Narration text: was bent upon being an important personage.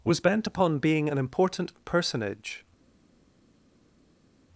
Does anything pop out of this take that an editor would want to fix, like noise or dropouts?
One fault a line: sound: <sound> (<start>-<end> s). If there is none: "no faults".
no faults